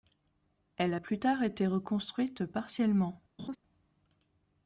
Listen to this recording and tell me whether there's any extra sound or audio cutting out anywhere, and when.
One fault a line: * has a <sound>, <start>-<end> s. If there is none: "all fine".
* has a laugh, 3.4-3.6 s